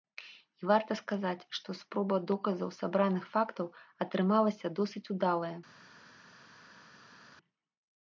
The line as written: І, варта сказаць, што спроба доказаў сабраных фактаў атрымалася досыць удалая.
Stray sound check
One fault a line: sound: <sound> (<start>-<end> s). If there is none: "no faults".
no faults